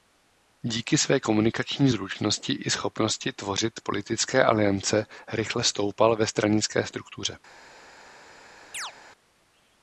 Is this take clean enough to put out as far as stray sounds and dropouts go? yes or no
no